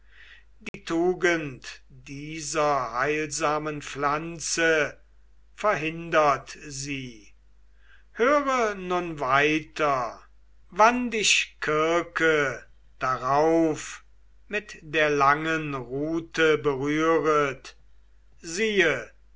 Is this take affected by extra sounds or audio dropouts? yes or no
yes